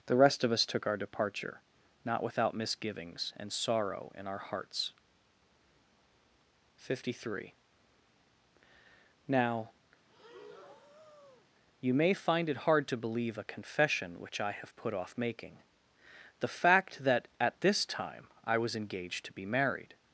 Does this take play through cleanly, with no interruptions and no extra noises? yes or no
no